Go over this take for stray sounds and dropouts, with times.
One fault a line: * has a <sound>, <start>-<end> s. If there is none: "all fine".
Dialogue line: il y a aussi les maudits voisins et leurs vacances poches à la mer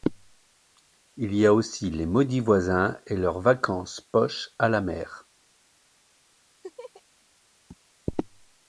* has a laugh, 6.6-7.0 s